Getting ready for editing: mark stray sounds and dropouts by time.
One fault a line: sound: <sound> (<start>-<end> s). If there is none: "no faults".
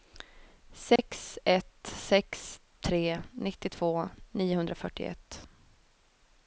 sound: dropout (1.0-1.0 s)